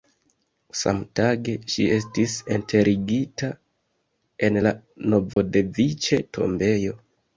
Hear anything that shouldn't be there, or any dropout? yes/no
yes